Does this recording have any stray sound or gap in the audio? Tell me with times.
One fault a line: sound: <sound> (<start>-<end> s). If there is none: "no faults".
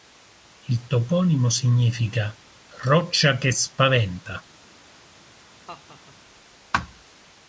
sound: laugh (5.7-6.2 s)